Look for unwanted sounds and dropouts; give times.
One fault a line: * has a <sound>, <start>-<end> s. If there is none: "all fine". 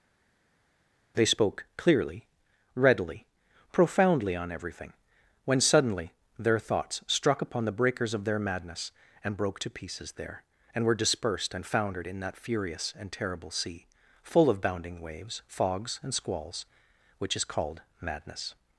all fine